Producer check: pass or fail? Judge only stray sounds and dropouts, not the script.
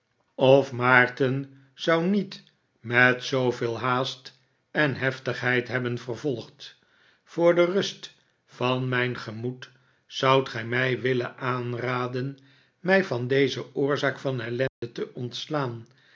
fail